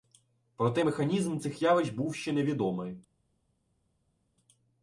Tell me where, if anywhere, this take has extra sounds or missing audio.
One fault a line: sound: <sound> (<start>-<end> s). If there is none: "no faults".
no faults